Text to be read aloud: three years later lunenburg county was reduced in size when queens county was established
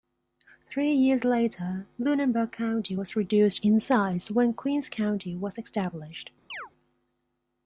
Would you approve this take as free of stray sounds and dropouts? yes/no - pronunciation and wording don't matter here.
no